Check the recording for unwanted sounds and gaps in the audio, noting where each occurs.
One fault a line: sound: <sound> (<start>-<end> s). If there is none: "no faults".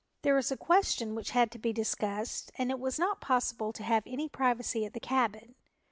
no faults